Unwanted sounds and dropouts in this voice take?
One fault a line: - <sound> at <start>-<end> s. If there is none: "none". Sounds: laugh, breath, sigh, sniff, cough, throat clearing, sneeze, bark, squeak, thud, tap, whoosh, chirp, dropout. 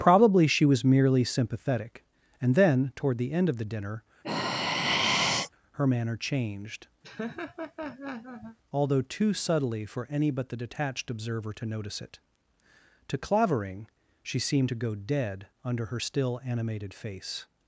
- sigh at 4.2-5.5 s
- laugh at 7.0-8.6 s